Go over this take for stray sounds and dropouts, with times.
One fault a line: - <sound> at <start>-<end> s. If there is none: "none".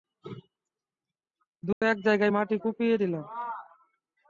- dropout at 1.7-1.8 s